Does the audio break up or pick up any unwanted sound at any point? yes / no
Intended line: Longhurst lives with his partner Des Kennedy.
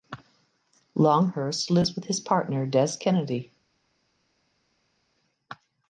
no